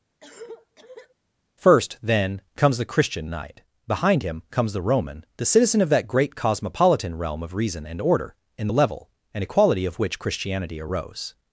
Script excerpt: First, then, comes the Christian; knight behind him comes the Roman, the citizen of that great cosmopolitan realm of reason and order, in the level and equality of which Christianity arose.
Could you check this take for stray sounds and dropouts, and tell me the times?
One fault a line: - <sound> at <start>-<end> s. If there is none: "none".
- cough at 0.2-1.1 s